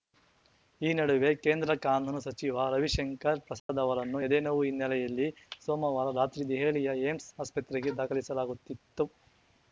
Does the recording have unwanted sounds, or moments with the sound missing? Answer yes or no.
yes